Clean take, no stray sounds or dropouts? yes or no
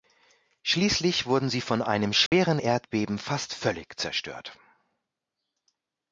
no